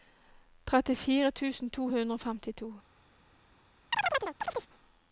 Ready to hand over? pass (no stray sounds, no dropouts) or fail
fail